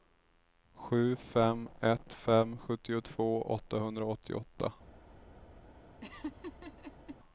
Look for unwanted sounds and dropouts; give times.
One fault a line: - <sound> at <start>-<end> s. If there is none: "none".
- laugh at 6.0-7.2 s